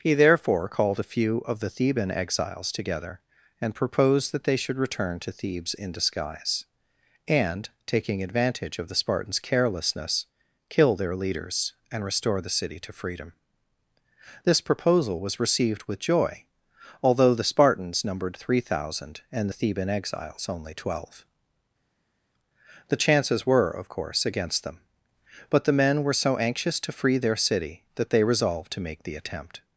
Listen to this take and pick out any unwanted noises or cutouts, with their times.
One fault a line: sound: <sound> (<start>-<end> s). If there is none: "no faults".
no faults